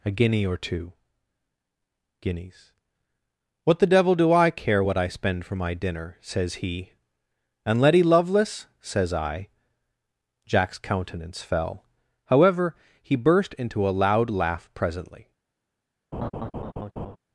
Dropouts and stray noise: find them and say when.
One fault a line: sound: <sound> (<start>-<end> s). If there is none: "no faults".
sound: laugh (16.1-17.2 s)